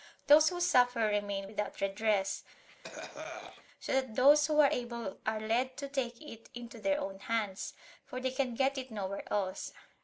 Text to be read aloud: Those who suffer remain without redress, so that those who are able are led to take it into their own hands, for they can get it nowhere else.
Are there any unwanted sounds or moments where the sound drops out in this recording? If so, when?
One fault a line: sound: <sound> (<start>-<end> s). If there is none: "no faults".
sound: cough (2.5-3.7 s)